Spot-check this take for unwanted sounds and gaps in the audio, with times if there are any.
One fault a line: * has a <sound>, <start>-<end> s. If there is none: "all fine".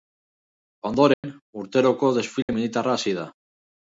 * has a dropout, 1.1-1.2 s
* has a dropout, 2.4-2.5 s